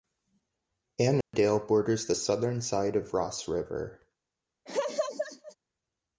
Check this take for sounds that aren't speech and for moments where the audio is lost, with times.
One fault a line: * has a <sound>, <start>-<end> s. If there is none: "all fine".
* has a dropout, 1.2-1.3 s
* has a laugh, 4.7-5.6 s